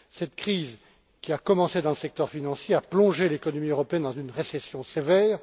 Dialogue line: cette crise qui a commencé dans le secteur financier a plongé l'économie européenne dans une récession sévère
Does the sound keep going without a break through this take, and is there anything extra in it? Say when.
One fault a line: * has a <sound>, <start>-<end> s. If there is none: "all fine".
all fine